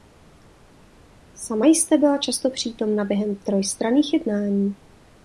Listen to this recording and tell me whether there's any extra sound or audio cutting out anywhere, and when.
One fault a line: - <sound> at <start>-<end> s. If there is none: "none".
none